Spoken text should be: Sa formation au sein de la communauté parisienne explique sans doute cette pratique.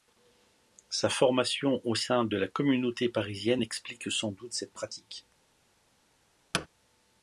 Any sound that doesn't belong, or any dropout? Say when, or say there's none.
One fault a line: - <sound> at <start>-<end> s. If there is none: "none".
- thud at 6.5-6.7 s